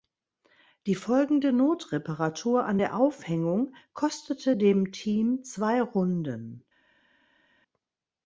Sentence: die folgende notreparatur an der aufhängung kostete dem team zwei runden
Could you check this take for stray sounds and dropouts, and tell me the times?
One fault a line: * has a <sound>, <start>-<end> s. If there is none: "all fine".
all fine